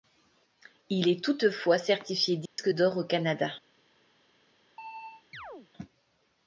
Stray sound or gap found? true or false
true